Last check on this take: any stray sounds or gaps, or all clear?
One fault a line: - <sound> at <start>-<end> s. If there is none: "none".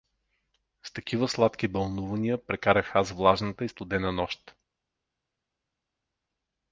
none